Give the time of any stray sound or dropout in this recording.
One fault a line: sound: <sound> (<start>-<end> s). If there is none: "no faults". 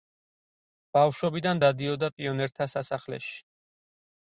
no faults